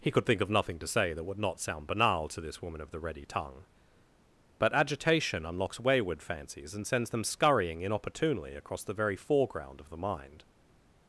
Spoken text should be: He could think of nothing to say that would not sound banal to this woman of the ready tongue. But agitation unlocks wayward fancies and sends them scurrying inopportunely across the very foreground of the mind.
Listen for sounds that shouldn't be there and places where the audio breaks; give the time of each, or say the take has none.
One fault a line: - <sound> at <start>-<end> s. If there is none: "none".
none